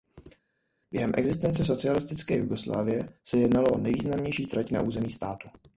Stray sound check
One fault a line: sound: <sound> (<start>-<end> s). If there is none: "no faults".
no faults